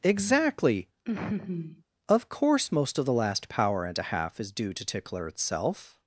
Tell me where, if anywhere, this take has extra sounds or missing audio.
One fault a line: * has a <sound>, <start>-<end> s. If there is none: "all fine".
* has a laugh, 1.1-1.8 s